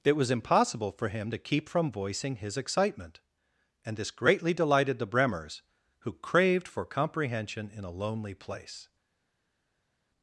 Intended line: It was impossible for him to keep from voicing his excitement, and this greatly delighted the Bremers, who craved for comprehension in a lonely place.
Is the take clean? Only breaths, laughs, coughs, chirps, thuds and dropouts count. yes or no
yes